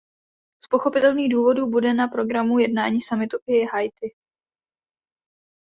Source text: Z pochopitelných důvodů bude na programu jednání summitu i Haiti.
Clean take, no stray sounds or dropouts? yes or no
yes